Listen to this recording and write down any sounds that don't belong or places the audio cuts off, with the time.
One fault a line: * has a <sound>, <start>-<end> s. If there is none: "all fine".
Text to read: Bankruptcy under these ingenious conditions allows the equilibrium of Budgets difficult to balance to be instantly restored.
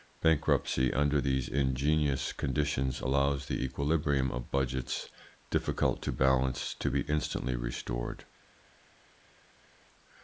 all fine